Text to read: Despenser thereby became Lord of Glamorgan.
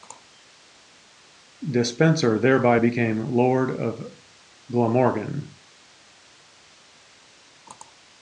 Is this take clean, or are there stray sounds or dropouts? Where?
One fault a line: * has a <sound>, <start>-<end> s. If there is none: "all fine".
all fine